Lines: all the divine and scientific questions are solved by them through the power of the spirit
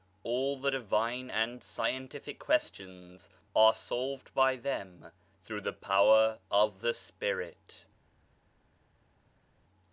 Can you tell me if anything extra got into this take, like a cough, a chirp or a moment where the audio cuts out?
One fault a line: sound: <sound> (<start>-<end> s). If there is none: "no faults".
no faults